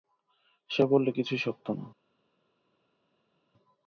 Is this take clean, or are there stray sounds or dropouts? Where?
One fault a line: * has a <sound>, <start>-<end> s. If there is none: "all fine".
all fine